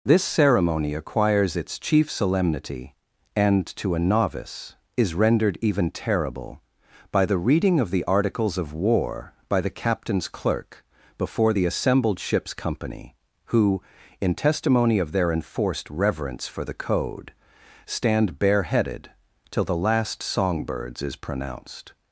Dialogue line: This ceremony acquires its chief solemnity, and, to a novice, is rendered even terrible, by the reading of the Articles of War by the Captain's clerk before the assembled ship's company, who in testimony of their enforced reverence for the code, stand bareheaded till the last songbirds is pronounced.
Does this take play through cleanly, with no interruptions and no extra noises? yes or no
yes